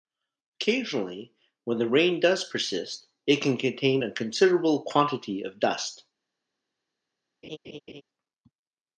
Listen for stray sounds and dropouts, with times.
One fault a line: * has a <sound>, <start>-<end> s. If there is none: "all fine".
* has a laugh, 7.4-8.0 s